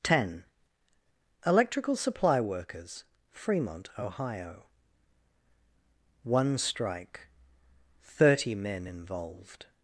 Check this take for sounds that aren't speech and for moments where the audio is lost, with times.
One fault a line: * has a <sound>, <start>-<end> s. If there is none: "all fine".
all fine